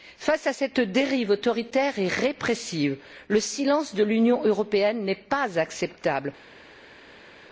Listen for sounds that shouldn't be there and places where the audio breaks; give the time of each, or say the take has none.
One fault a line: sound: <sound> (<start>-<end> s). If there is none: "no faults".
no faults